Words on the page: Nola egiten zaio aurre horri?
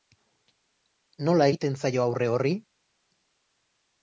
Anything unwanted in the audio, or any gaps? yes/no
no